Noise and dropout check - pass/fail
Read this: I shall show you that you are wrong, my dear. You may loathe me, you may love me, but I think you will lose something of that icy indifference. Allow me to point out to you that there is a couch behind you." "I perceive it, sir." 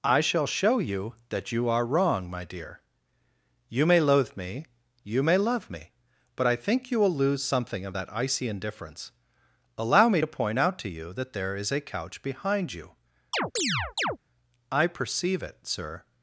fail